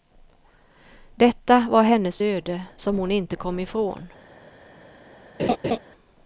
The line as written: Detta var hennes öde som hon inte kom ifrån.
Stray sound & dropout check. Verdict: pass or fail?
fail